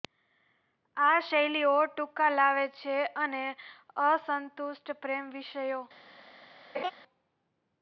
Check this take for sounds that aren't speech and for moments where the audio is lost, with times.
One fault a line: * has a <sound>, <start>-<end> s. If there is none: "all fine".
* has a laugh, 6.7-6.9 s